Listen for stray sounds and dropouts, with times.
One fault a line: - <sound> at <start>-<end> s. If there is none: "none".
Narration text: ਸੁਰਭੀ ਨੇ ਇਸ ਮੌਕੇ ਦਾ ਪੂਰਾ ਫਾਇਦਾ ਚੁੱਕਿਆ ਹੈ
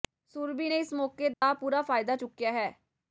- dropout at 1.3-1.4 s